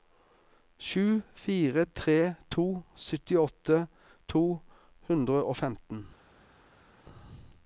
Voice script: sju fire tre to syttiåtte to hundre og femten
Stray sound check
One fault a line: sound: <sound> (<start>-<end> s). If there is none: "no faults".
no faults